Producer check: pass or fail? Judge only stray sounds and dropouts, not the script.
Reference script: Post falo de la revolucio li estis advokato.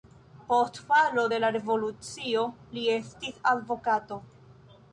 pass